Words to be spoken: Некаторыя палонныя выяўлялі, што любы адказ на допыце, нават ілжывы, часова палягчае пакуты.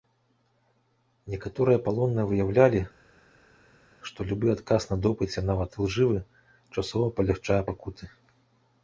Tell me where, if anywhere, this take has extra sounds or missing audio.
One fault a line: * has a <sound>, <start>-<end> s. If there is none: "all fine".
all fine